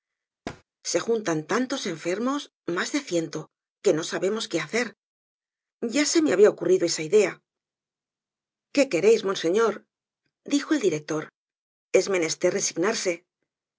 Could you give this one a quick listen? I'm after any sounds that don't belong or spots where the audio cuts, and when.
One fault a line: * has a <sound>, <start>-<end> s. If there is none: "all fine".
* has a thud, 0.5-0.6 s